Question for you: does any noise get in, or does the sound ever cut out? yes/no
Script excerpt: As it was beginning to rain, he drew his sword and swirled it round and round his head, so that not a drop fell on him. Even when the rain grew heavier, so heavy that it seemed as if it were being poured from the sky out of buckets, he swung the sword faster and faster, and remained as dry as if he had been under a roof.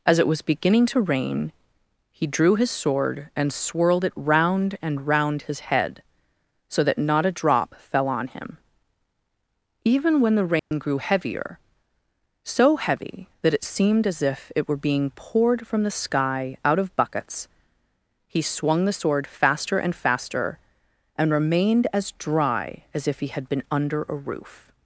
yes